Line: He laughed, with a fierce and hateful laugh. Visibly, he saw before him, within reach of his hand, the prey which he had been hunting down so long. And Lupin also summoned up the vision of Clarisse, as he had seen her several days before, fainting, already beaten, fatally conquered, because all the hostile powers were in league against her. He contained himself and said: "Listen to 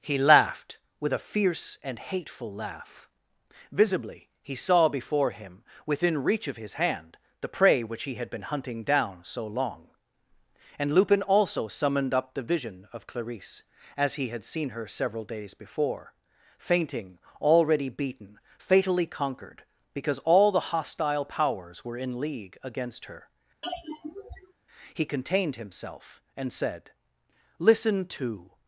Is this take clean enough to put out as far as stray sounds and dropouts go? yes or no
no